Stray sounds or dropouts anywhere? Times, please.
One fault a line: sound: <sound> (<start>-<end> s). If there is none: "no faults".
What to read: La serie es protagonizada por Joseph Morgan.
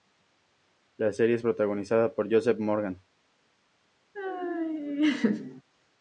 sound: laugh (4.1-5.6 s)